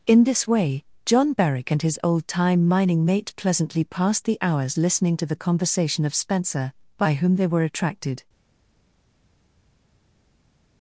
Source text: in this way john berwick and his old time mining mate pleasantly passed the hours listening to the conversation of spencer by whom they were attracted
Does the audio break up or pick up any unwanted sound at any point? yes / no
no